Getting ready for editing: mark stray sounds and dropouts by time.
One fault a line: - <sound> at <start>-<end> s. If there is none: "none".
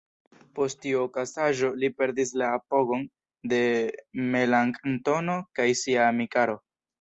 none